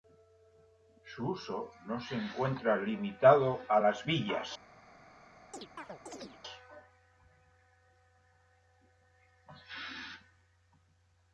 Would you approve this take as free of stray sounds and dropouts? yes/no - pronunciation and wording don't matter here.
no